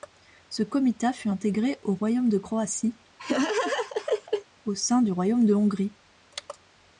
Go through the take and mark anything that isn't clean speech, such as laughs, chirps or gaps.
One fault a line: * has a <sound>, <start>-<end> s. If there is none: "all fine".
* has a laugh, 3.2-4.5 s